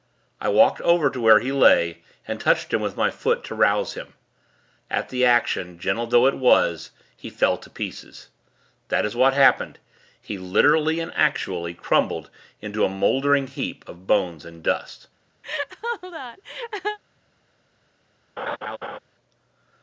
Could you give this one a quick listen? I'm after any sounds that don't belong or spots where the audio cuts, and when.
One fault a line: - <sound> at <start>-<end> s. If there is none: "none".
- laugh at 15.4-17.0 s
- laugh at 18.4-19.0 s